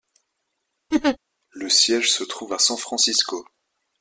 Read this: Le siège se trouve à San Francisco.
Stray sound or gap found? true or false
true